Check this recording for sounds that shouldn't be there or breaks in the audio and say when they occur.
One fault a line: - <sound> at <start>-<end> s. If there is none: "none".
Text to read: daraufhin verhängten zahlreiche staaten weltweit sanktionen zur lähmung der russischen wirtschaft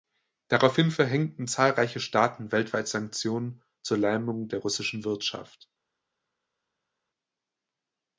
none